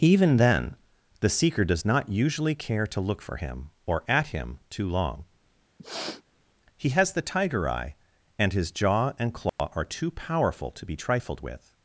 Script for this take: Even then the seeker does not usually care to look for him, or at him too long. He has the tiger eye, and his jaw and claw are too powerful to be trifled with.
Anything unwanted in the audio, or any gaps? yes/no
yes